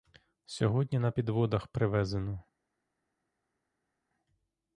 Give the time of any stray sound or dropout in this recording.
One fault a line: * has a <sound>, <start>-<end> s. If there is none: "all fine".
all fine